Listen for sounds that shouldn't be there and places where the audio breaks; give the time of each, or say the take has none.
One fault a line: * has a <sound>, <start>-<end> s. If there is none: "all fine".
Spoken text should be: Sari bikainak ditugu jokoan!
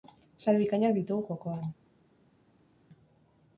all fine